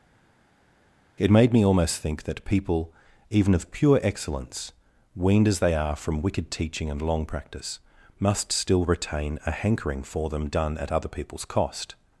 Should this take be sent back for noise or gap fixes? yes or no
no